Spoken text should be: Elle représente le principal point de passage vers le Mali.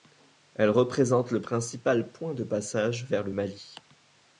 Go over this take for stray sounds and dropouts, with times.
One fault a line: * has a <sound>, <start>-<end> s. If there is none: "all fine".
all fine